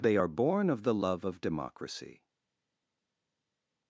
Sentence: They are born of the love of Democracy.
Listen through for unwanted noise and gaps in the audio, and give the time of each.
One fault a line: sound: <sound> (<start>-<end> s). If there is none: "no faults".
no faults